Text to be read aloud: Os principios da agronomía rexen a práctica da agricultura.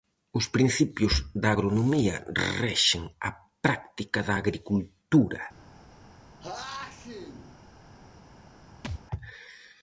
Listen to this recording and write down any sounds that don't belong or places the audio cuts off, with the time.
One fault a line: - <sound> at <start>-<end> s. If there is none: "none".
- sneeze at 6.4-7.6 s
- thud at 8.8-9.0 s